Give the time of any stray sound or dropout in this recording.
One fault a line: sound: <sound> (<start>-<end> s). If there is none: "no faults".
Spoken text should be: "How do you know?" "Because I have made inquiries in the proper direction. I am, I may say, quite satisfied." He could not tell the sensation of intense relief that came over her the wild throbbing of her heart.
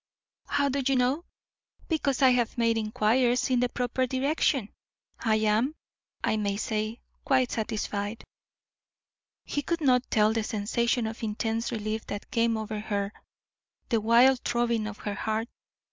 no faults